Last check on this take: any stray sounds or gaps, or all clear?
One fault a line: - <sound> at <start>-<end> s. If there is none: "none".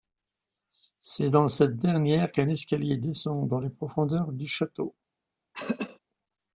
- throat clearing at 5.5-6.0 s